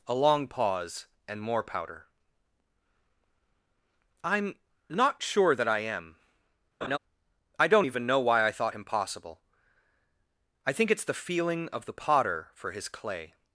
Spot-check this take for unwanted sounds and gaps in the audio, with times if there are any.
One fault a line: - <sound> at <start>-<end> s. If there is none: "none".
- laugh at 6.8-7.0 s